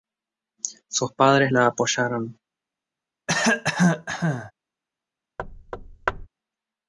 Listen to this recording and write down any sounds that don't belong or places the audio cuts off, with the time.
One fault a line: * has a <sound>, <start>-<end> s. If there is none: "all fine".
* has a cough, 3.3-4.5 s
* has a thud, 5.4-6.3 s